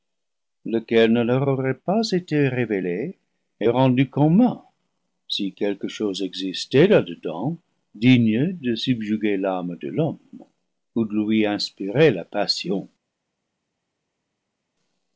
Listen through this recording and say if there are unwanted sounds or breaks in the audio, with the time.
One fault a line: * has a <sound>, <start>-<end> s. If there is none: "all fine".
all fine